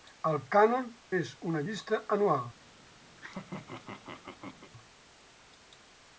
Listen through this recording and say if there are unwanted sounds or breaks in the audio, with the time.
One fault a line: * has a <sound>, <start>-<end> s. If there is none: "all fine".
* has a laugh, 3.2-4.7 s